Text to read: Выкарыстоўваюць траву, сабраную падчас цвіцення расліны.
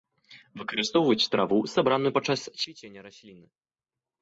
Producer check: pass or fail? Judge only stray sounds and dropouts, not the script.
pass